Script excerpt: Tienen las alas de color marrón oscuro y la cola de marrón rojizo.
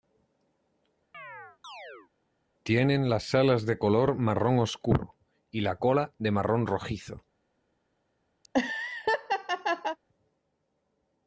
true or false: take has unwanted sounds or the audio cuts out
true